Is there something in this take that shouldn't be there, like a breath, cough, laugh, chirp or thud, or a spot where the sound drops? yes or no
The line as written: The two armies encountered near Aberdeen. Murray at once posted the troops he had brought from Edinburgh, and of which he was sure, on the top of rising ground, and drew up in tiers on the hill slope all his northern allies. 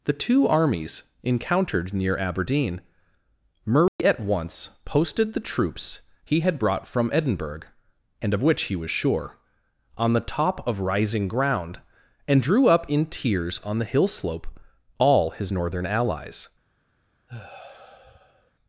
yes